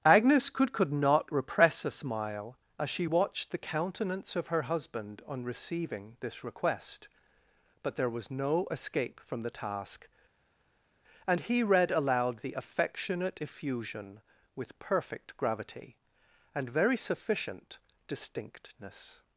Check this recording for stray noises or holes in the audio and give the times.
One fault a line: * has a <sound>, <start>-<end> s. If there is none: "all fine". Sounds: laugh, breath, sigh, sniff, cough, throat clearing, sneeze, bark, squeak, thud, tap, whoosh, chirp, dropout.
all fine